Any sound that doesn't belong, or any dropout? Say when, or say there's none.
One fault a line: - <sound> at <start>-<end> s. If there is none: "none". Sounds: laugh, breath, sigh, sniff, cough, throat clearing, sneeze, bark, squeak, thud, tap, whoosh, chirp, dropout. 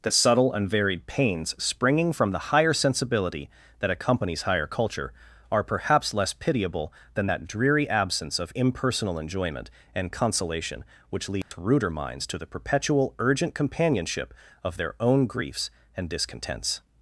- dropout at 11.4-11.5 s